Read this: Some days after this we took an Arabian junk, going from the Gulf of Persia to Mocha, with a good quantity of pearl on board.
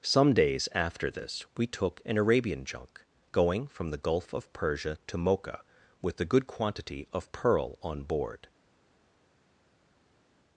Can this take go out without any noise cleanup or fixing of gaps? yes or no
yes